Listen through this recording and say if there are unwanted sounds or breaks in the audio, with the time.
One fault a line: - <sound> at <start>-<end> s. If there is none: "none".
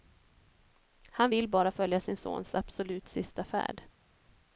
none